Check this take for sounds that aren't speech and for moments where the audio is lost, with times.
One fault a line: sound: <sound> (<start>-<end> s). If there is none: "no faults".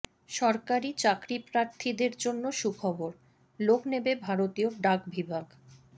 no faults